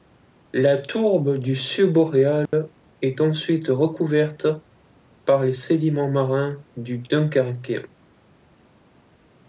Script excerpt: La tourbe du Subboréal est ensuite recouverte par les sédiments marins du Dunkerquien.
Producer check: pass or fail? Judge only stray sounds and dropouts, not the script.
fail